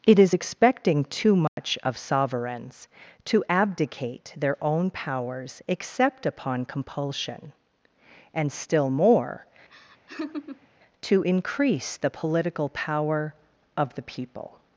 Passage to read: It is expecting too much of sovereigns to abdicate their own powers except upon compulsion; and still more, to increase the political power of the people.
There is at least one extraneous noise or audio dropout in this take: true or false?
true